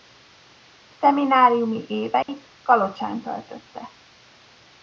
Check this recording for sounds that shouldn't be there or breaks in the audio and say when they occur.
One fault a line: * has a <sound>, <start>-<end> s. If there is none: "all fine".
* has a dropout, 2.2-2.3 s